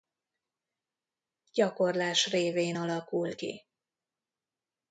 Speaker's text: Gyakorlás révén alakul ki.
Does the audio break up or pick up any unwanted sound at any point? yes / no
no